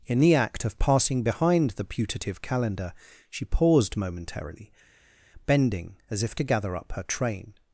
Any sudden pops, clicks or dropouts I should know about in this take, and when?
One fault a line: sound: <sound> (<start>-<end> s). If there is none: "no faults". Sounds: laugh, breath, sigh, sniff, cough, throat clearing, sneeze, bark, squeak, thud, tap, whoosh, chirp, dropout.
no faults